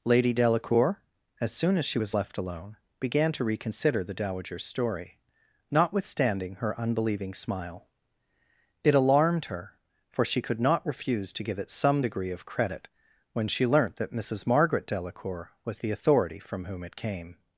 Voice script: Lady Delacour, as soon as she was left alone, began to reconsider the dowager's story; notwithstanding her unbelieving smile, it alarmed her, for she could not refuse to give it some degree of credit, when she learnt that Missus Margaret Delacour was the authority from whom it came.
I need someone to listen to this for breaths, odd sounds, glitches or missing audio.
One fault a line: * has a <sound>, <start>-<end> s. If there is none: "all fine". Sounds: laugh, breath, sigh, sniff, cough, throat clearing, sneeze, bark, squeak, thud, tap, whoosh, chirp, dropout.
all fine